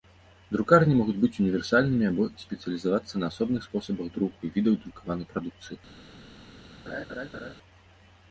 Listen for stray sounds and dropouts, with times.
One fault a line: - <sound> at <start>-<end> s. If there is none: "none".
- laugh at 6.9-7.5 s